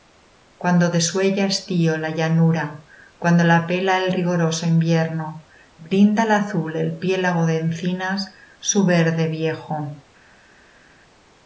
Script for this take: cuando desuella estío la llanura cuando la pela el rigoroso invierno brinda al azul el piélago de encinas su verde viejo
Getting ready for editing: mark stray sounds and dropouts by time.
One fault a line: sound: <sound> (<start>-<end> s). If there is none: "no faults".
no faults